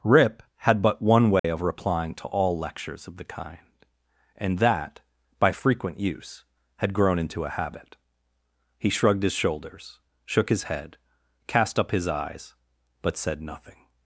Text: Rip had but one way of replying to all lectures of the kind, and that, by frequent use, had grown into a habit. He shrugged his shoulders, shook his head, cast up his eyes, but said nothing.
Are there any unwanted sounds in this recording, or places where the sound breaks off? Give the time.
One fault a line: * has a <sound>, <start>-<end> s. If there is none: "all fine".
* has a dropout, 1.4-1.4 s